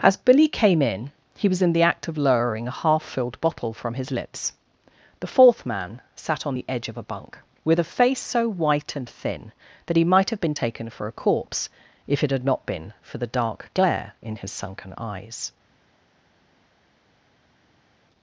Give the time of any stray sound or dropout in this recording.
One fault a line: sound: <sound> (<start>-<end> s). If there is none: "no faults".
no faults